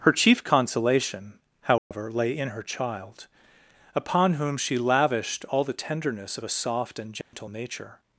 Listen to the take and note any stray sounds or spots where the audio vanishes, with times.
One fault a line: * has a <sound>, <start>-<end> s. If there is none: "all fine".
* has a dropout, 1.8-1.9 s
* has a dropout, 7.2-7.3 s